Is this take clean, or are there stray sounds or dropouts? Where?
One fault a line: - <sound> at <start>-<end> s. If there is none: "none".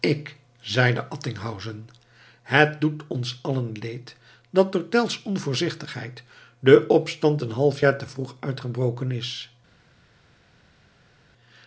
none